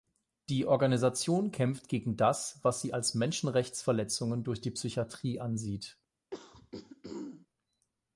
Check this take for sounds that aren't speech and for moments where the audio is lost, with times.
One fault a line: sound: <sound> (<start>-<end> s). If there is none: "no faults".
sound: throat clearing (6.3-7.5 s)